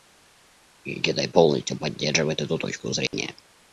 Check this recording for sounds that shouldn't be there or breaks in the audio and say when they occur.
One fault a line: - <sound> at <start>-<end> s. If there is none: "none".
- dropout at 3.1-3.1 s